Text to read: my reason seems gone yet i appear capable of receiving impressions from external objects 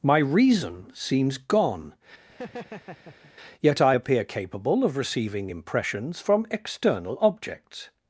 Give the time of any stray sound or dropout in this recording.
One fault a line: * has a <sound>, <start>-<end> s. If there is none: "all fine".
* has a laugh, 2.3-3.3 s